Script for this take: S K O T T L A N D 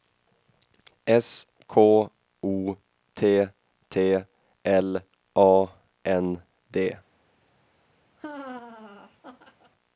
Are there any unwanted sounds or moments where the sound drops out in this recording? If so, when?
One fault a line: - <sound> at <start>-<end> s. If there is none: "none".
- laugh at 8.2-9.7 s